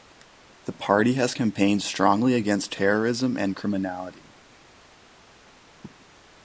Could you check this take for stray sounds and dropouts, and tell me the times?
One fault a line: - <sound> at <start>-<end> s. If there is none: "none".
none